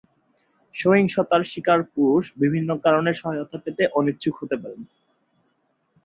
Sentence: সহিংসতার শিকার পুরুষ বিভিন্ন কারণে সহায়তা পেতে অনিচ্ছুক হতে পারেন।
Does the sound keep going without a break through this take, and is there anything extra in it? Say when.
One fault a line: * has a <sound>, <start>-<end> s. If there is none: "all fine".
all fine